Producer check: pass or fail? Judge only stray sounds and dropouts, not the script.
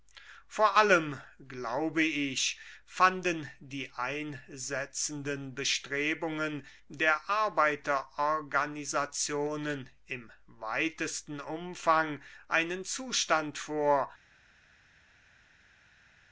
pass